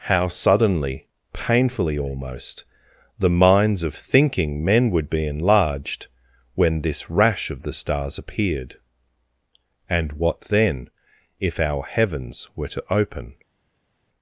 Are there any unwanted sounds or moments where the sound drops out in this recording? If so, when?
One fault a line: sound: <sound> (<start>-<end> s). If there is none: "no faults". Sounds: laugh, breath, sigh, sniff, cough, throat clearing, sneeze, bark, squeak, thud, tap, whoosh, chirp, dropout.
no faults